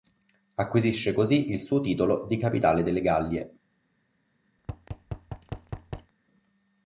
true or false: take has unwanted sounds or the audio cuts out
true